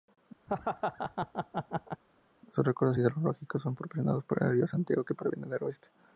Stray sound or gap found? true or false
true